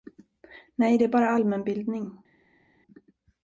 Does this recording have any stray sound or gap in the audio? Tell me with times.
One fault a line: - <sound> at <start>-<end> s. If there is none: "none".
none